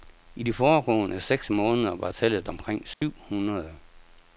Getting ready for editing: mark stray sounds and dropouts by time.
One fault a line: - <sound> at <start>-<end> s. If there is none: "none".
- dropout at 2.9-3.0 s